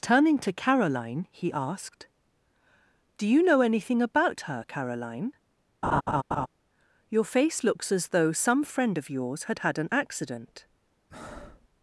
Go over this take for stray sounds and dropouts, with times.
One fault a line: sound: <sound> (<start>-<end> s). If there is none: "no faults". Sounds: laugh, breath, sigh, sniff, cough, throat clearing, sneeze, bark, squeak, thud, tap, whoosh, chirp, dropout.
sound: laugh (5.8-6.5 s)
sound: breath (11.1-11.7 s)